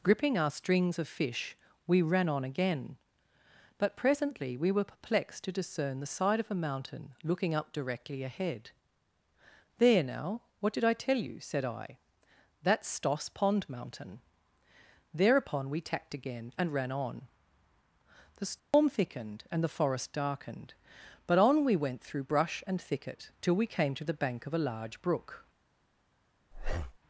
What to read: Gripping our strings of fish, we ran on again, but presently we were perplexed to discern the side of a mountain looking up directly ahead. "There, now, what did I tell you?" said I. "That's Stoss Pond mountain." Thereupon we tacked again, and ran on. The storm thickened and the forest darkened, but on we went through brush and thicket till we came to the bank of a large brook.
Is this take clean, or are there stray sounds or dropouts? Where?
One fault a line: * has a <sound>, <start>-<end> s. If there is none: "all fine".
* has a dropout, 18.6-18.7 s
* has a breath, 26.5-27.0 s